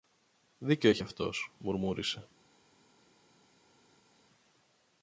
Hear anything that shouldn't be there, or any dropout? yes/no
no